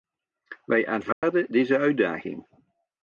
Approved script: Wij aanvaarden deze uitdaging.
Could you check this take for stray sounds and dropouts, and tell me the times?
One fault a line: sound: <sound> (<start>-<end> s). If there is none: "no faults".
sound: dropout (1.1-1.2 s)